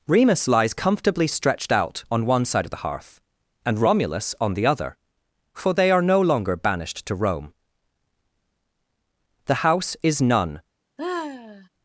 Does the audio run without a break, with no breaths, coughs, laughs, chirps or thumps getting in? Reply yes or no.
no